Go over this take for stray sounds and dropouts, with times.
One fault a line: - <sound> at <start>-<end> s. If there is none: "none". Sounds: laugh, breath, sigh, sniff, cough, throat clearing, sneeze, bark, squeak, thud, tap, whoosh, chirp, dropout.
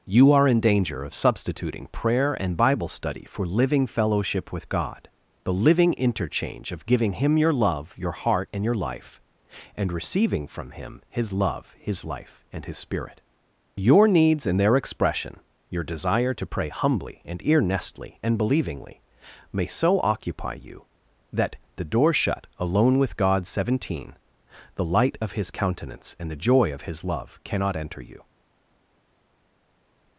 none